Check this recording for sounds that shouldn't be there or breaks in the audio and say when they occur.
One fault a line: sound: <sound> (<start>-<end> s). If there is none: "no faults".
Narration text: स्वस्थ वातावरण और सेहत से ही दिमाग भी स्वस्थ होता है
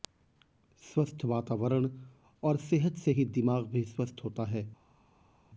no faults